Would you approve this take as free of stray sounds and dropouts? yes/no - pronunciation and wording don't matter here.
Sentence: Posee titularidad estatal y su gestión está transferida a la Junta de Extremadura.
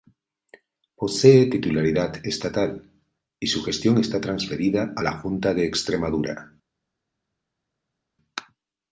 yes